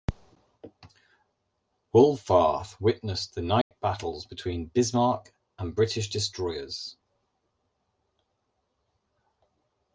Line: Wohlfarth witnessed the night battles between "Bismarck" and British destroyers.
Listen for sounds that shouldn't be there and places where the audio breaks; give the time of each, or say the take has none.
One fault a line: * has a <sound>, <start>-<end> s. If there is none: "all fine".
* has a dropout, 3.6-3.7 s